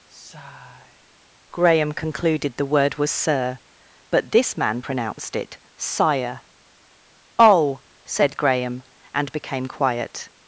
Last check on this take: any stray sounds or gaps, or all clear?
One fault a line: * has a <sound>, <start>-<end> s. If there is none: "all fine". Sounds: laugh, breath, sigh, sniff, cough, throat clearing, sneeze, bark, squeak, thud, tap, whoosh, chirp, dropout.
* has a sigh, 0.1-1.1 s